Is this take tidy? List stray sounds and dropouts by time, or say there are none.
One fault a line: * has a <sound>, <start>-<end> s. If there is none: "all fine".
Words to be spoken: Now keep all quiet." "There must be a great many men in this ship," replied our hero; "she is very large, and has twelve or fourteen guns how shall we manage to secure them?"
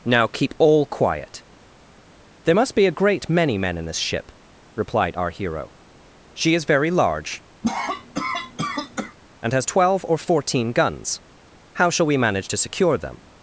* has a cough, 7.6-9.2 s